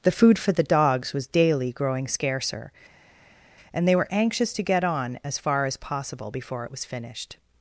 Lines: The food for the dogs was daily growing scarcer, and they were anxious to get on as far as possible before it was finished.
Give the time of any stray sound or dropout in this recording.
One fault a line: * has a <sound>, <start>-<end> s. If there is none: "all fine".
all fine